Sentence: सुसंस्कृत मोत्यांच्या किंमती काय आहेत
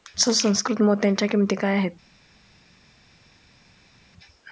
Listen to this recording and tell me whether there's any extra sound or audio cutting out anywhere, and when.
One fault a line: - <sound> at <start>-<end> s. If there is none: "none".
none